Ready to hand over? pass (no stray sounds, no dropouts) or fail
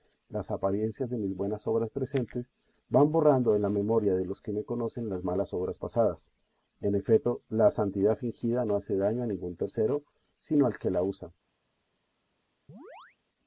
fail